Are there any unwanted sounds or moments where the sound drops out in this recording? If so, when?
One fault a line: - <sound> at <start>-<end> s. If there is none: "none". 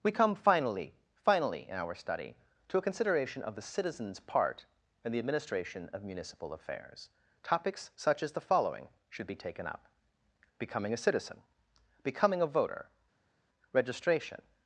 none